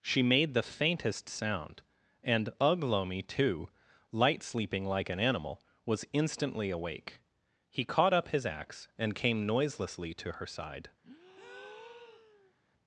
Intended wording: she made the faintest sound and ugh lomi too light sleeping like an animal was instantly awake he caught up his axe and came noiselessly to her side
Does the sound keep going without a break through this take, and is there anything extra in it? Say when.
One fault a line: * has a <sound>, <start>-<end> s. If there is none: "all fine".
* has a breath, 11.0-12.5 s